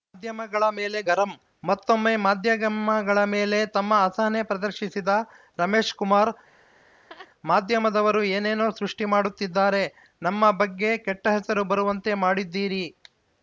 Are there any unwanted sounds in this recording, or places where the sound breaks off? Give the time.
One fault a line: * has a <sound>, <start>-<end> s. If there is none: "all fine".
* has a laugh, 6.5-7.3 s